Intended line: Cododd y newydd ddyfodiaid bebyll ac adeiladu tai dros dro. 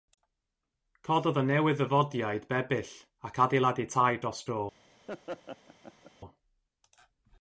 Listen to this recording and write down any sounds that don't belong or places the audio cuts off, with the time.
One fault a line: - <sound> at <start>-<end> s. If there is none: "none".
- laugh at 5.1-6.1 s